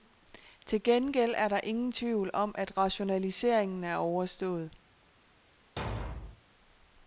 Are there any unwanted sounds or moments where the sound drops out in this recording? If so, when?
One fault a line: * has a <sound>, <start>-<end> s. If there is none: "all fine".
* has a thud, 5.8-6.4 s